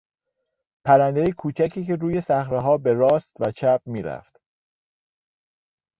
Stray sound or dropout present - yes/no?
no